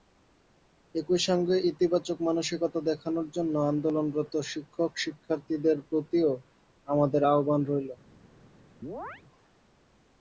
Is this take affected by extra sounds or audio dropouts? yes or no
yes